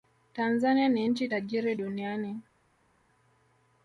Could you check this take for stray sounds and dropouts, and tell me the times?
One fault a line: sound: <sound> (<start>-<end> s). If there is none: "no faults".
no faults